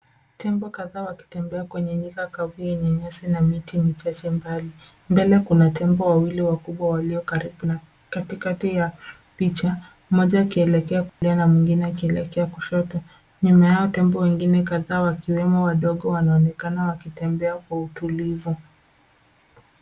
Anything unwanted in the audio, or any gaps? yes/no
yes